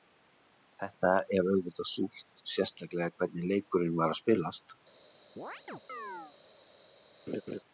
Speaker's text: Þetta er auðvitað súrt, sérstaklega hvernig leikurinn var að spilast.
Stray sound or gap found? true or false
true